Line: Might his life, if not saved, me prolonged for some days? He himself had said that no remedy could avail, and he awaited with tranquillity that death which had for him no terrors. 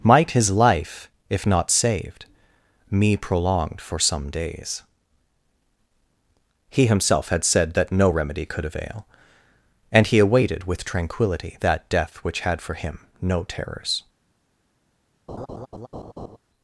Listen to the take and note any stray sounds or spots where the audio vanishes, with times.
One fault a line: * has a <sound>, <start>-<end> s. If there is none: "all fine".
* has a laugh, 15.3-16.4 s